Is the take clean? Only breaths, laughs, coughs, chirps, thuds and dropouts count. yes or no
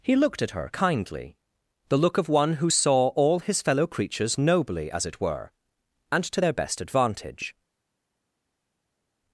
yes